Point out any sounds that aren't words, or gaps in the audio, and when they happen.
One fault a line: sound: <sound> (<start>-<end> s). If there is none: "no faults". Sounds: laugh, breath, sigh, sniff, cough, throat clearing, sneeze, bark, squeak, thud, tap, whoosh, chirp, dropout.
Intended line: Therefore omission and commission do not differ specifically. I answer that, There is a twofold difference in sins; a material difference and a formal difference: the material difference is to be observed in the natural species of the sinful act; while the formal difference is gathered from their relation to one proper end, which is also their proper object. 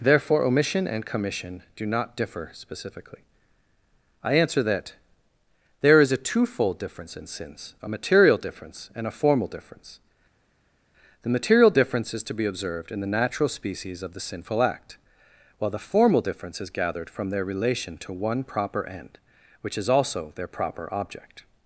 no faults